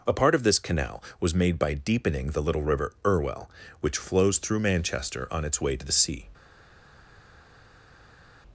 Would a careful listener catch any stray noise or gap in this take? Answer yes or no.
no